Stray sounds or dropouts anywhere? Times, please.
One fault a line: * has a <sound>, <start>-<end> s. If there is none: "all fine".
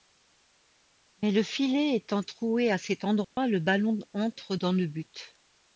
* has a dropout, 3.2-3.4 s